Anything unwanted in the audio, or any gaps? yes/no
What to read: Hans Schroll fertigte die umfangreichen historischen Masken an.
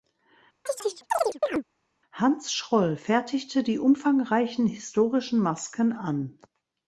yes